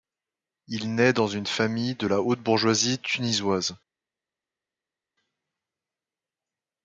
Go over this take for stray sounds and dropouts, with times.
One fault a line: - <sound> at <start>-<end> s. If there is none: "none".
none